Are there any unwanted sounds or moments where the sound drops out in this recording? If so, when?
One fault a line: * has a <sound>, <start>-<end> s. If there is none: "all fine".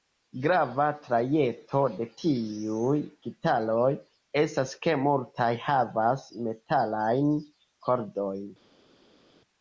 all fine